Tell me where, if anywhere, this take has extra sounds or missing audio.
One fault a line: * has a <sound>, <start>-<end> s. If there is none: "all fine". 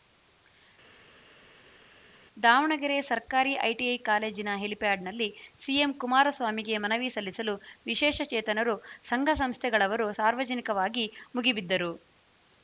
all fine